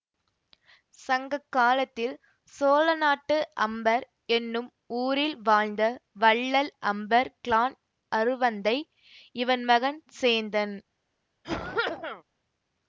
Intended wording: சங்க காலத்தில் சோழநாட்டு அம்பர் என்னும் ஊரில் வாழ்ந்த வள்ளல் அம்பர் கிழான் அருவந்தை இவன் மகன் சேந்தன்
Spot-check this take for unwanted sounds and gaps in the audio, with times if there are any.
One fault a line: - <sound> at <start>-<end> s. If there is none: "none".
- cough at 11.4-12.2 s